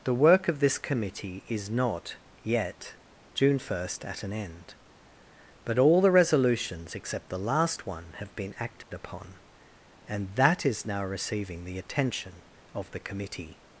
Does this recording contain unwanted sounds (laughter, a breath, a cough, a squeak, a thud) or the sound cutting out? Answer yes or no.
yes